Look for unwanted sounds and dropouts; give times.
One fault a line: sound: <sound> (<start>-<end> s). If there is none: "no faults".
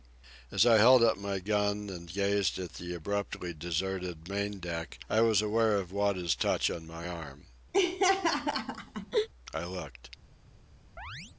sound: laugh (7.7-9.3 s)
sound: chirp (11.0-11.3 s)